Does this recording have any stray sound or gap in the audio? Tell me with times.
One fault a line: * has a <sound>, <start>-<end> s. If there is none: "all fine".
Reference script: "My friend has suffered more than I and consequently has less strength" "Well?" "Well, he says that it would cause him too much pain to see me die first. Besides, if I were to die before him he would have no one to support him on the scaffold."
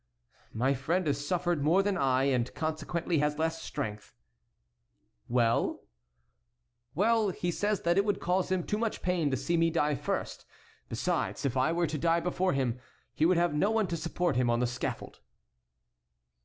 all fine